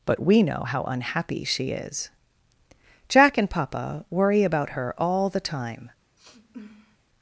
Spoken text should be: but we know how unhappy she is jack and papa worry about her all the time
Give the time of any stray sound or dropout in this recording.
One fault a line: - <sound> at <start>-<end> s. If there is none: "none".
- sniff at 6.2-7.0 s